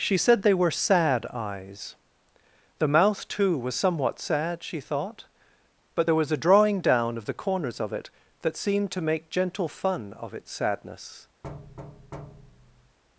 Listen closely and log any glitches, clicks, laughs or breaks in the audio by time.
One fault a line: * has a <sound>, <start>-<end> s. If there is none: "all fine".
* has a thud, 11.4-13.0 s